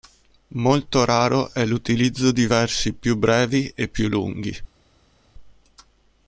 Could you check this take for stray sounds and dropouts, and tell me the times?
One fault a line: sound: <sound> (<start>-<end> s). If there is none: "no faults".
no faults